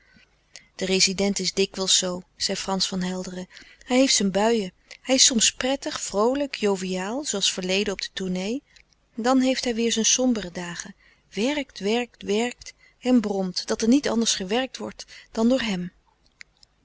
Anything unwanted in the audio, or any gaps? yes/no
no